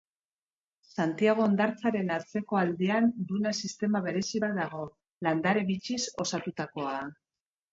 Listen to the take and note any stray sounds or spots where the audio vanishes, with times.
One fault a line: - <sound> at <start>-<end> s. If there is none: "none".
none